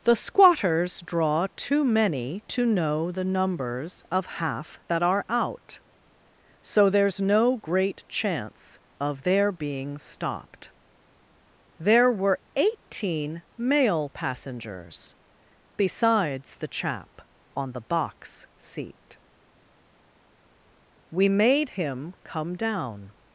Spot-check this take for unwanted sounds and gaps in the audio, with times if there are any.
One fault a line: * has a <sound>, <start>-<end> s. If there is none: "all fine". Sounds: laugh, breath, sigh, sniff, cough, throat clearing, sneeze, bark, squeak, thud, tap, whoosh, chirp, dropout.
all fine